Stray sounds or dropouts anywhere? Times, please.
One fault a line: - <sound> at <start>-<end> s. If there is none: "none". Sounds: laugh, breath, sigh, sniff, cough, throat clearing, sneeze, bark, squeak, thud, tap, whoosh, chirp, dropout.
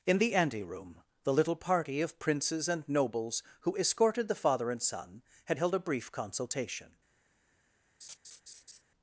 - laugh at 8.0-8.8 s